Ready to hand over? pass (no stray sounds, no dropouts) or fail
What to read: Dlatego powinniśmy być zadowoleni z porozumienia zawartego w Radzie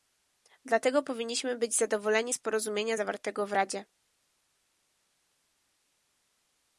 pass